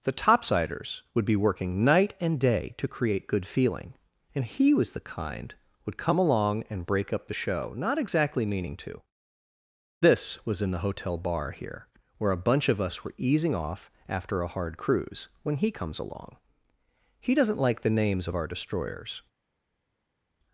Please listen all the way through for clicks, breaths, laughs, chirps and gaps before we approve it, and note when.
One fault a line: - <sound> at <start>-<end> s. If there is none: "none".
none